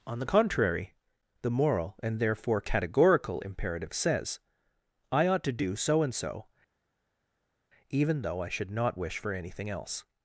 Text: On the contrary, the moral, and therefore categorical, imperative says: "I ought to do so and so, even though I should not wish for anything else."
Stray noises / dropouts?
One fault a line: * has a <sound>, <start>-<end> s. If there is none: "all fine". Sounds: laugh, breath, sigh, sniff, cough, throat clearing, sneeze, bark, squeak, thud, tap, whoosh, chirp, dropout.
all fine